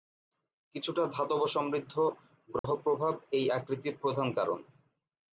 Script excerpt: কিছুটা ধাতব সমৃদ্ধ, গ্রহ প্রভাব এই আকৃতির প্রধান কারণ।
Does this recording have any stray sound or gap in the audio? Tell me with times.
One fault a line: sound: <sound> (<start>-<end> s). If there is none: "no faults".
sound: dropout (2.6-2.6 s)